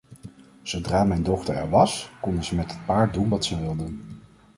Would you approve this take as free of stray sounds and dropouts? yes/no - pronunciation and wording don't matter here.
yes